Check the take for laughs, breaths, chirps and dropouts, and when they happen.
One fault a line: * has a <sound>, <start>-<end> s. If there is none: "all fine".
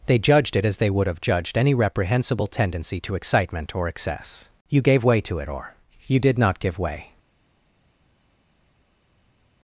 all fine